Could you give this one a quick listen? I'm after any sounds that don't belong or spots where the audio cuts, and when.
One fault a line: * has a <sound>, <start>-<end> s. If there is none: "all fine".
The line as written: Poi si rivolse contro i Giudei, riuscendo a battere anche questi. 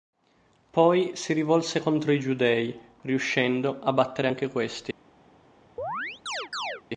* has a chirp, 5.8-6.8 s